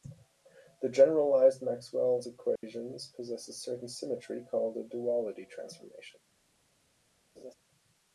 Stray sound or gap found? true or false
true